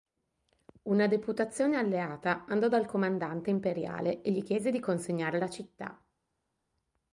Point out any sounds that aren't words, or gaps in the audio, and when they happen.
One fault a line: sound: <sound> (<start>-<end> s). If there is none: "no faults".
no faults